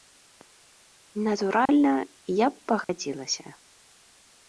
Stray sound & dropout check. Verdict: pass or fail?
fail